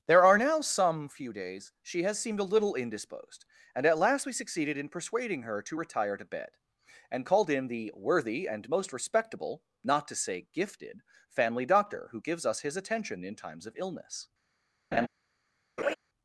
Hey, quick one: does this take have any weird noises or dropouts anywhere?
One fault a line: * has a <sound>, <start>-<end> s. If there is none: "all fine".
* has a laugh, 14.9-15.1 s
* has a laugh, 15.8-16.0 s